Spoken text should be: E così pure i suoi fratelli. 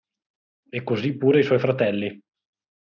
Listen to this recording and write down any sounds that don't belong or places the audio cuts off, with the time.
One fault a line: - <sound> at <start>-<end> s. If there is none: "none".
none